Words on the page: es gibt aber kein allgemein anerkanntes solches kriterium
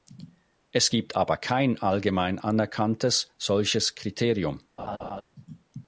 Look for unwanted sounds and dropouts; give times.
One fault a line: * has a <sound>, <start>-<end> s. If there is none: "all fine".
* has a laugh, 4.8-5.2 s